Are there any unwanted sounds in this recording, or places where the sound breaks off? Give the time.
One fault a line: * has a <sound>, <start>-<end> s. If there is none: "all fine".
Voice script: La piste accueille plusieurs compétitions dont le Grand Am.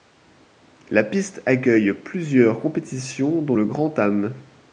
all fine